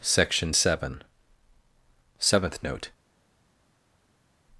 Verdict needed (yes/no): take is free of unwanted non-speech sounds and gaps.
yes